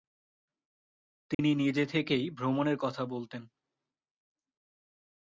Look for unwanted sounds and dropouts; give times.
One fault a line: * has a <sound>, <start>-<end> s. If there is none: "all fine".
* has a dropout, 1.3-1.4 s